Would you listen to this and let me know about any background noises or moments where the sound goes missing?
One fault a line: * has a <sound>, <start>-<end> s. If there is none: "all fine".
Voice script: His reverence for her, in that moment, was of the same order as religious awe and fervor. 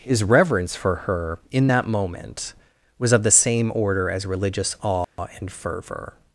* has a dropout, 5.0-5.2 s